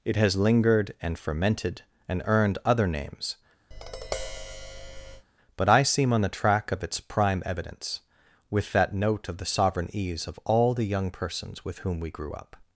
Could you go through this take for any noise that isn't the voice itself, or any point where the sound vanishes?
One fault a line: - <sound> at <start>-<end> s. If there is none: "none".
- tap at 3.7-5.3 s